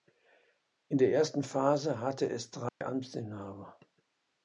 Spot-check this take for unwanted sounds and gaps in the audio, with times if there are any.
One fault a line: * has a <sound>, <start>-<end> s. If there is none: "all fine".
* has a dropout, 2.7-2.8 s